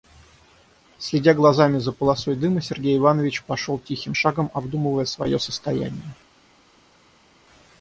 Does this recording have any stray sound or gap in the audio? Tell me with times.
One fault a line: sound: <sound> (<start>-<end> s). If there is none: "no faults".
no faults